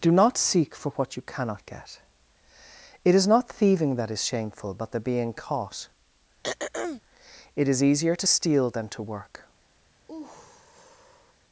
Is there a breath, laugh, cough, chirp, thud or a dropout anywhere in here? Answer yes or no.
yes